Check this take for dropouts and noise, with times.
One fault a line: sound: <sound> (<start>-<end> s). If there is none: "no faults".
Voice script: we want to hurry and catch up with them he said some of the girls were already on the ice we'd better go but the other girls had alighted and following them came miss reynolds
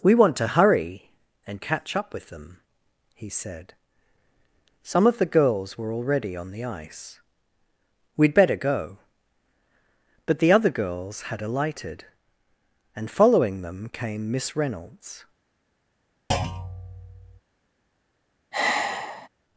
sound: thud (16.3-17.4 s)
sound: sigh (18.5-19.3 s)